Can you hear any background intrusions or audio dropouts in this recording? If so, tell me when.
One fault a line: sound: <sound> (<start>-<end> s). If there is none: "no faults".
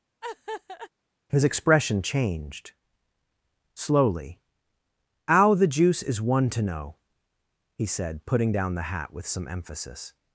sound: laugh (0.2-0.9 s)